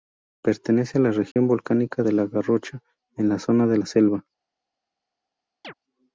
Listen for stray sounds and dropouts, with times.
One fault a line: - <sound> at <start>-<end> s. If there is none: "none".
- dropout at 1.3-1.4 s
- chirp at 5.6-5.7 s